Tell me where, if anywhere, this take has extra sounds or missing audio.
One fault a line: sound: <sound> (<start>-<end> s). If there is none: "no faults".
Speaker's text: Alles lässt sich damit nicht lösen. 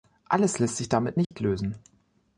sound: dropout (1.2-1.3 s)